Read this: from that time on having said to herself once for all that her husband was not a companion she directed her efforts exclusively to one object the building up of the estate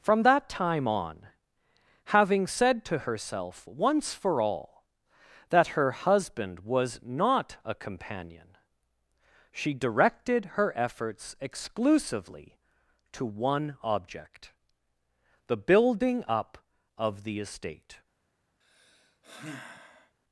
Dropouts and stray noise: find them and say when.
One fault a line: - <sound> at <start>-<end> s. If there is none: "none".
- sigh at 18.6-20.2 s